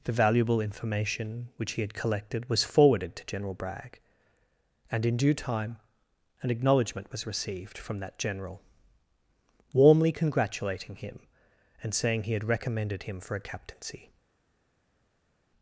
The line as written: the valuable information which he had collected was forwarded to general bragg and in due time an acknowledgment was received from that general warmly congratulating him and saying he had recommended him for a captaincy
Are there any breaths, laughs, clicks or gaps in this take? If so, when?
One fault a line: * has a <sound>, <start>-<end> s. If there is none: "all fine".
all fine